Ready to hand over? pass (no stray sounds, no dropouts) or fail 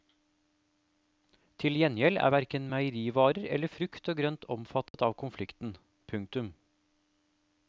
fail